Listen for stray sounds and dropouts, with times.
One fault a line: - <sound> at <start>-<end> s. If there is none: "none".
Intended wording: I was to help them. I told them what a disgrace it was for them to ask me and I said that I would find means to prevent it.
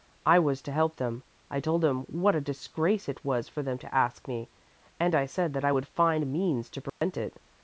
- dropout at 6.9-7.0 s